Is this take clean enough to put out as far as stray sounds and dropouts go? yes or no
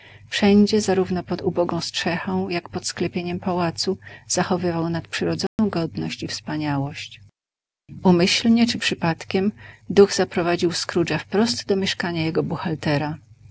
no